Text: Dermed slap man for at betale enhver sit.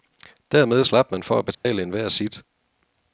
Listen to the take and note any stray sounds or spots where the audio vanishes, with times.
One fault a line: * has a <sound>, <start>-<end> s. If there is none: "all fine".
* has a dropout, 1.5-1.7 s